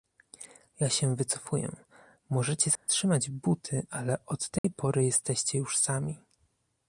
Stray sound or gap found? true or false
true